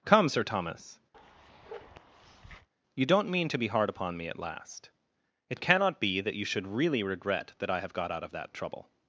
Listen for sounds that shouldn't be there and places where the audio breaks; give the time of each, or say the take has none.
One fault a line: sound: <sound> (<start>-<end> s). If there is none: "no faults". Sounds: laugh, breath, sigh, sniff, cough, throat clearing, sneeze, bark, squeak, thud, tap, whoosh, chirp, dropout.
sound: bark (1.1-2.7 s)